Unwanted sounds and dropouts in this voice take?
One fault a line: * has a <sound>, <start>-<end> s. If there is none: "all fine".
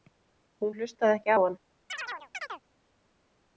* has a chirp, 1.9-2.6 s